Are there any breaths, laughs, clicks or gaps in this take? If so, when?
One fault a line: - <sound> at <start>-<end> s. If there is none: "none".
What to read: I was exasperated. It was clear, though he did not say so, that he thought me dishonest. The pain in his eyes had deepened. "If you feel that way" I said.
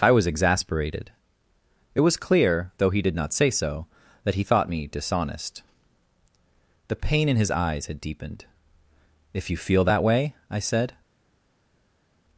none